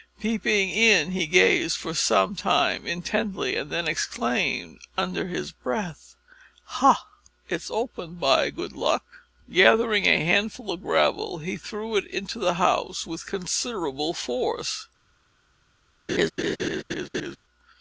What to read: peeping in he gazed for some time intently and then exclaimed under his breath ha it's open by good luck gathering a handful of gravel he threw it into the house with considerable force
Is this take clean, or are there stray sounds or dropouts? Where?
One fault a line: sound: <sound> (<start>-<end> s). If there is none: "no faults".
sound: laugh (16.1-17.4 s)